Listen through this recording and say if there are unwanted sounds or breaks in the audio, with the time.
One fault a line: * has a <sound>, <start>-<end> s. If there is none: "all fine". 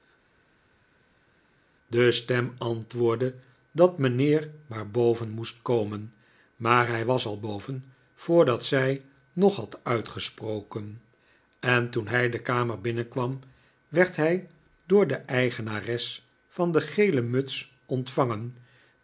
all fine